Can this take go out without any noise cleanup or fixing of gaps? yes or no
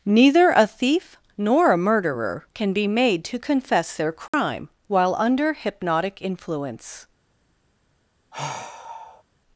no